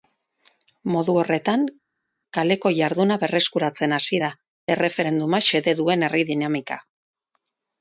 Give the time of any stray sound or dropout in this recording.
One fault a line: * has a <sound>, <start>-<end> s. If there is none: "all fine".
all fine